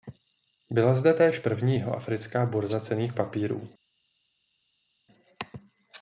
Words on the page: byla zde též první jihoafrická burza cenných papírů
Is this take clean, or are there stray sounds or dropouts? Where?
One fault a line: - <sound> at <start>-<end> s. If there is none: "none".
none